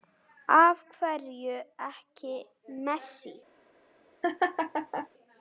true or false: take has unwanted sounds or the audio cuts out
true